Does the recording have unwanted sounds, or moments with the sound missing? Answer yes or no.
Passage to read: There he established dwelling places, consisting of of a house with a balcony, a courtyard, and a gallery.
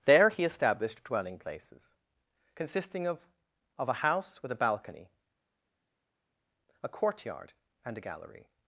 no